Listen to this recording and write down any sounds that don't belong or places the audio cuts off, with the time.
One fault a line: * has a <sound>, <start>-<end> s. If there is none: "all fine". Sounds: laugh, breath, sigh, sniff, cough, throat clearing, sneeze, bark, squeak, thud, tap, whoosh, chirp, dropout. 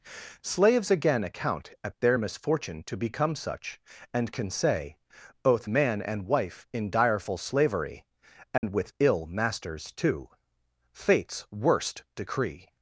* has a dropout, 8.6-8.6 s